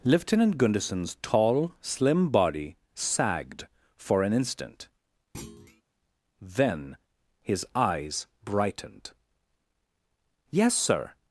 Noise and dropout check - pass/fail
fail